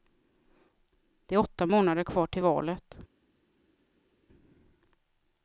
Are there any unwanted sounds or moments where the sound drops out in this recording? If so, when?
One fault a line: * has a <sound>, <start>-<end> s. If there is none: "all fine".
all fine